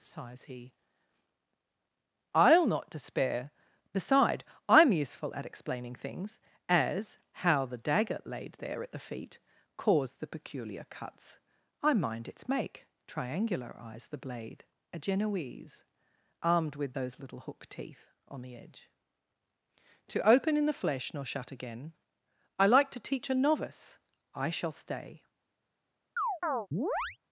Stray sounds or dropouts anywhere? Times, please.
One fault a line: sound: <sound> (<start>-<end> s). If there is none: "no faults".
sound: chirp (26.2-27.2 s)